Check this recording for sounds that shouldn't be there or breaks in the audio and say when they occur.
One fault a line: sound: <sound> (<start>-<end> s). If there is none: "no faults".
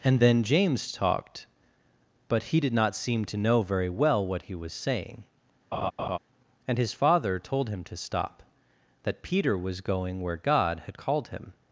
sound: laugh (5.7-6.2 s)